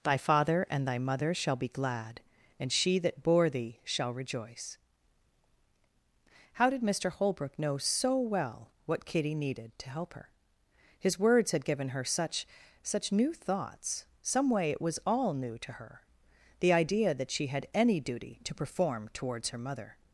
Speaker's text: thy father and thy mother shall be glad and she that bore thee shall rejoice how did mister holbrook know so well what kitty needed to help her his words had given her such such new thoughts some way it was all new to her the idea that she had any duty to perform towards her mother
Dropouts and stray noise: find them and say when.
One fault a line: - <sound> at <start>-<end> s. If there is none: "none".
none